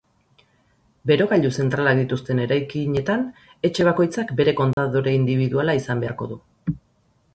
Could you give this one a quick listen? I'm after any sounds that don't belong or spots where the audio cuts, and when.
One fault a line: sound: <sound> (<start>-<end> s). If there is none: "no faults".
sound: dropout (4.7-4.8 s)